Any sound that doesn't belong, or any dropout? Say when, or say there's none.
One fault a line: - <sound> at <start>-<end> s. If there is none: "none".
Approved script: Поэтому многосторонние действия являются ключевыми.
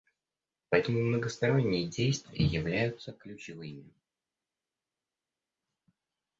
none